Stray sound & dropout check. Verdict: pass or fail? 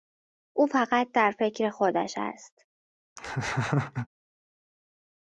fail